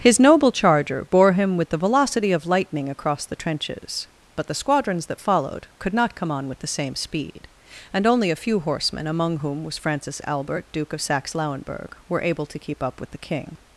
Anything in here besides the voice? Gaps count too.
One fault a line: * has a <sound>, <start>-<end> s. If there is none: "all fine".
all fine